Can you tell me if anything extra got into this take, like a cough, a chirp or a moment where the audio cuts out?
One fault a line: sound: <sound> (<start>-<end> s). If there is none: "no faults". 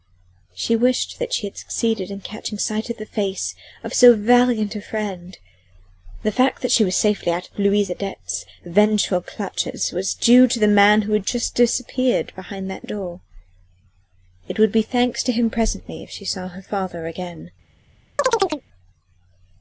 sound: chirp (18.2-18.6 s)